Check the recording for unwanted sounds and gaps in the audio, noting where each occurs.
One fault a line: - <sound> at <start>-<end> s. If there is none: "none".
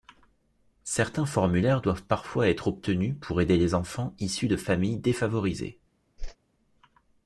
- whoosh at 6.2-6.4 s